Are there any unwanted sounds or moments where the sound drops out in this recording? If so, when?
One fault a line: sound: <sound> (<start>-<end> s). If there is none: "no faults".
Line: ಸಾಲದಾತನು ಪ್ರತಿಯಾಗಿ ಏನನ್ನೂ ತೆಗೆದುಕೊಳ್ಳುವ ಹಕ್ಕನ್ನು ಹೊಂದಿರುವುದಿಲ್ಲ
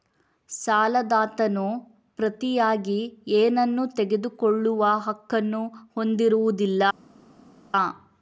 no faults